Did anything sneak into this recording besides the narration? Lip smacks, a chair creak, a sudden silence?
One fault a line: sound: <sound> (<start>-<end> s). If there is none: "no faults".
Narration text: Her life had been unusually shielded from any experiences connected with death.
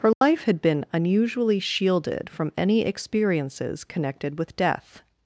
sound: dropout (0.1-0.2 s)